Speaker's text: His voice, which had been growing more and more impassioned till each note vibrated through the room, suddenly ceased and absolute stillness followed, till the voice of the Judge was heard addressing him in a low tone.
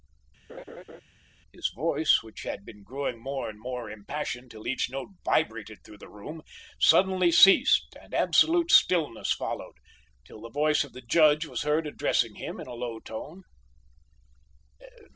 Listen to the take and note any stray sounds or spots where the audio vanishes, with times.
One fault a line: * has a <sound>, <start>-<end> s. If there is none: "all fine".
* has a laugh, 0.5-1.0 s